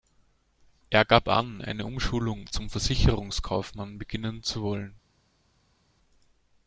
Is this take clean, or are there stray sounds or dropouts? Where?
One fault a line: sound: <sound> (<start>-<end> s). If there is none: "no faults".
no faults